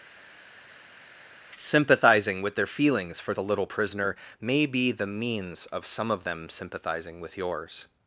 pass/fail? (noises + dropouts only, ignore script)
pass